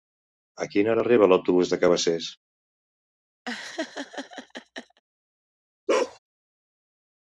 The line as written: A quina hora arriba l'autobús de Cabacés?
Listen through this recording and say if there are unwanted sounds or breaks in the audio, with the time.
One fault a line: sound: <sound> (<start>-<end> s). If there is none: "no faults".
sound: laugh (3.5-5.0 s)
sound: bark (5.9-6.2 s)